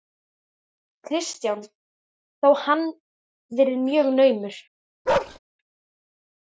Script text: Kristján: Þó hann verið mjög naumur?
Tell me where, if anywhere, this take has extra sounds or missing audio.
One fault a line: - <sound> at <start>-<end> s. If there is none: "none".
- bark at 5.1-5.4 s